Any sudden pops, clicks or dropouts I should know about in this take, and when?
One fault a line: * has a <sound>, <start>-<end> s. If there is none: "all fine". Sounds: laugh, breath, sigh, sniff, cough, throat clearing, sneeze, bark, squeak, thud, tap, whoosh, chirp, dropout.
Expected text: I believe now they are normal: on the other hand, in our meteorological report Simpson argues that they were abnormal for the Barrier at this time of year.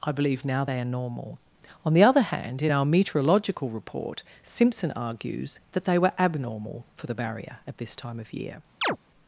* has a chirp, 8.8-9.0 s